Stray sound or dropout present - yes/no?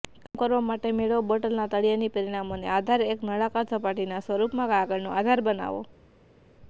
no